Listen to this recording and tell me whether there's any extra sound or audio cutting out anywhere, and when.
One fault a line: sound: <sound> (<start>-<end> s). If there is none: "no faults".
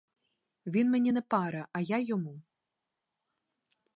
no faults